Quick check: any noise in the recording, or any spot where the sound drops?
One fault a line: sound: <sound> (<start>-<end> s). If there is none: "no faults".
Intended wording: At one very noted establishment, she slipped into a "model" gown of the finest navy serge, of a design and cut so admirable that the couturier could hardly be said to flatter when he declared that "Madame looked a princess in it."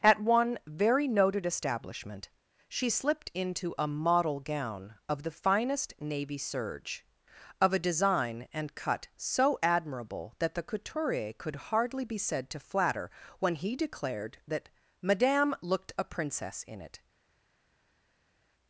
no faults